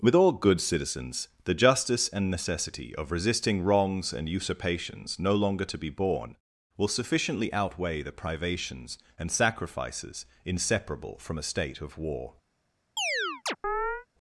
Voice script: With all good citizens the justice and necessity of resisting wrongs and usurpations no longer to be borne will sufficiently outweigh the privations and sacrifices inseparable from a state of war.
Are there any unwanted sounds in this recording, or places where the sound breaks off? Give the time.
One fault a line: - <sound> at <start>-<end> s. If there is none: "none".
- chirp at 13.0-14.1 s